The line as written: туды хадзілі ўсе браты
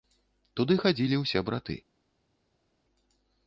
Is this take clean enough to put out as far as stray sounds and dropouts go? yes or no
yes